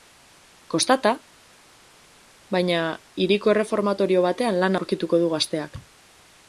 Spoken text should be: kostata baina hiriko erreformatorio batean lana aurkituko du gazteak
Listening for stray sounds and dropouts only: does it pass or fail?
pass